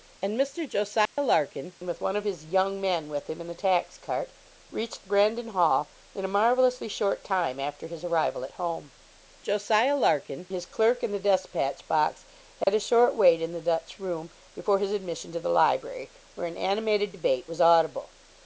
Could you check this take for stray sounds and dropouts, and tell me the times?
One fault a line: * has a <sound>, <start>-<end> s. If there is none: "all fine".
* has a dropout, 1.1-1.2 s
* has a dropout, 12.6-12.7 s